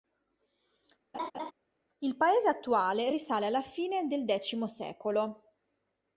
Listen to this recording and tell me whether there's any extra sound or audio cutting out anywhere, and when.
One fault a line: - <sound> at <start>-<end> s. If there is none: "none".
- laugh at 1.1-1.5 s